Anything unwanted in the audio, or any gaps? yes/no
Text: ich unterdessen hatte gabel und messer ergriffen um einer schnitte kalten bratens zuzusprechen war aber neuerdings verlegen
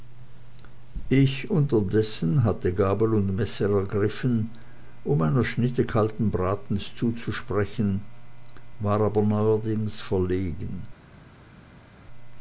no